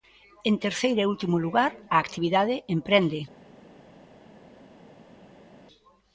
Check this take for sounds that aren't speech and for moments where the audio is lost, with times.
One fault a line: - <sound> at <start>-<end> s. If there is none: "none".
none